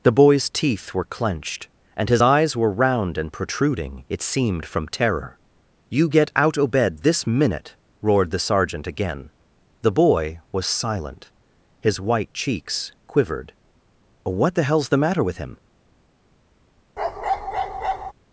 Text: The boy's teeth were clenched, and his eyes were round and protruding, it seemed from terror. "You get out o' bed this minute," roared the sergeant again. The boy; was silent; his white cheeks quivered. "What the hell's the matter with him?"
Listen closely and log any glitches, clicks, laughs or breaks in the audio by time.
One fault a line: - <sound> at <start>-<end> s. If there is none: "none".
- bark at 17.0-18.1 s